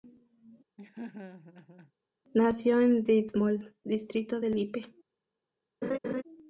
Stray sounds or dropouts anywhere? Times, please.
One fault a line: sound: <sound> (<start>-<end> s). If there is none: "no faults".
sound: laugh (0.8-1.9 s)
sound: laugh (5.8-6.2 s)